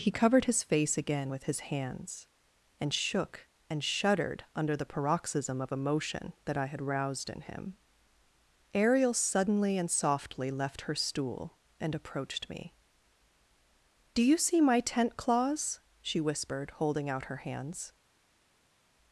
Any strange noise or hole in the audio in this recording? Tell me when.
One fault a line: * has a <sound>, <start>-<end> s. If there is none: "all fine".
all fine